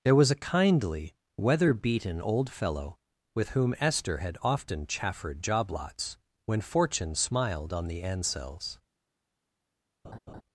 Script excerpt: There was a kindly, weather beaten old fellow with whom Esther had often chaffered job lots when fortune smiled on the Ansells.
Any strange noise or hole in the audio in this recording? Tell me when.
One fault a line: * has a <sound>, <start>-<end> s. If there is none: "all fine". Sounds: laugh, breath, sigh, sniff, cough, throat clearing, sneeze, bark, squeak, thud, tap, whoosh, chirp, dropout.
* has a laugh, 10.0-10.4 s